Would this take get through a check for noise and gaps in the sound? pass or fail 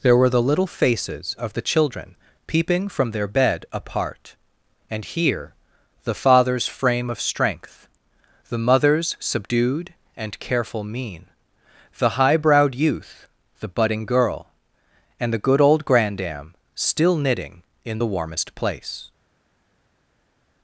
pass